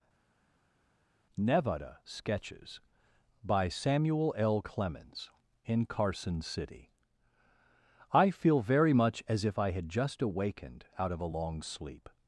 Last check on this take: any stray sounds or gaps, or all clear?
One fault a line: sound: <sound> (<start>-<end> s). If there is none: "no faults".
no faults